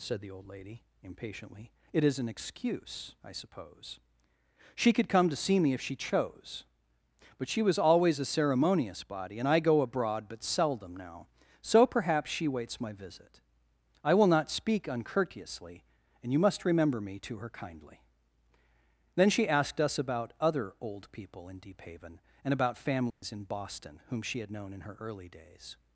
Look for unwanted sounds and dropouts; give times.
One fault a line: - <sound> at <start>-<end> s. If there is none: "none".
- dropout at 23.1-23.2 s